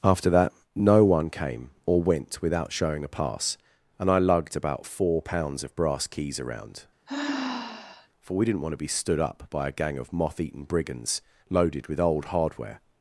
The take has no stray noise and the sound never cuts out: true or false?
false